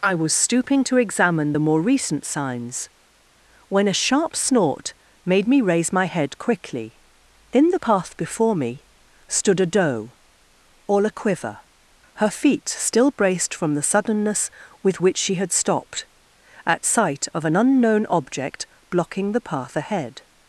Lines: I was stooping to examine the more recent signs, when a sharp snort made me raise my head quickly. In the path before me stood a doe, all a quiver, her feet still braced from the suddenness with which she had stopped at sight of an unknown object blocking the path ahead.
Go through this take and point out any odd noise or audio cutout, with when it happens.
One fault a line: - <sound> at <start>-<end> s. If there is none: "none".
none